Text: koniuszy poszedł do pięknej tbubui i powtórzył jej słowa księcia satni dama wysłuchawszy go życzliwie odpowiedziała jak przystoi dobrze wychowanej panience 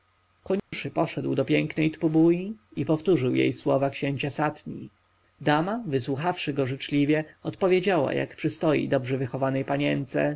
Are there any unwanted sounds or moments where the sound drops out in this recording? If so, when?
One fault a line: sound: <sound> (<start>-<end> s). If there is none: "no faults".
sound: dropout (0.6-0.7 s)